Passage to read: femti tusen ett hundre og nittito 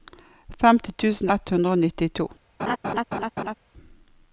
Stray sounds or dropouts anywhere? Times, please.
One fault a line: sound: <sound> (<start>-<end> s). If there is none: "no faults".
sound: laugh (2.6-3.5 s)